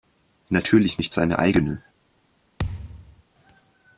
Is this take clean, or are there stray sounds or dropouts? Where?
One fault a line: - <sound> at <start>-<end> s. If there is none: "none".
- thud at 2.6-3.2 s